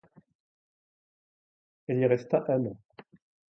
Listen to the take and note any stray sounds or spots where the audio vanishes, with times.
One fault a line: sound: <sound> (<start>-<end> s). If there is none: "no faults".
no faults